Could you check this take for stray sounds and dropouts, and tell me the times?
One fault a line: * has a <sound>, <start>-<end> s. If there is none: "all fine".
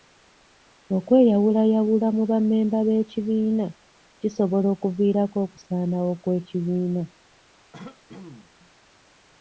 * has a throat clearing, 7.7-8.5 s